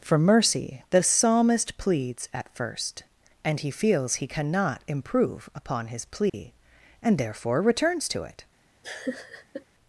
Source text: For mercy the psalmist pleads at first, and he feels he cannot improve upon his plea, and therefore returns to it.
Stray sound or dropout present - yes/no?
yes